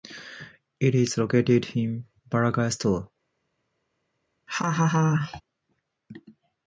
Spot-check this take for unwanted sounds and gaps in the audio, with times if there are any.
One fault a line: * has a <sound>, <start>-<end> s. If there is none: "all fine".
* has a laugh, 4.5-5.4 s